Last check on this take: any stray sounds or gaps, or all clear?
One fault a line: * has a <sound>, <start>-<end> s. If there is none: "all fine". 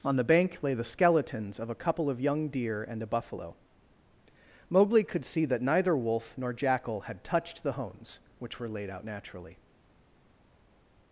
all fine